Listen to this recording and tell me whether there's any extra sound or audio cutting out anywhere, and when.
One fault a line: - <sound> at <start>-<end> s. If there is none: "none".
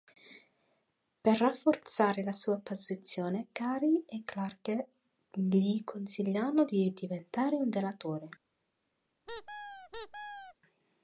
- squeak at 9.3-10.6 s